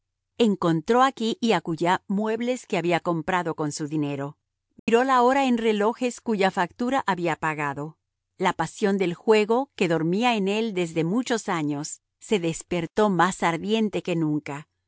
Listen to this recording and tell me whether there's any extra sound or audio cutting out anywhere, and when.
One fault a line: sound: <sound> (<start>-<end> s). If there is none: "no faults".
sound: dropout (4.8-4.9 s)